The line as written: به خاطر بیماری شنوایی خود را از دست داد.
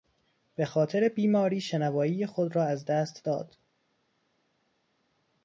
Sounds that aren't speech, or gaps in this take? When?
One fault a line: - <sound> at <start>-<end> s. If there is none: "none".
none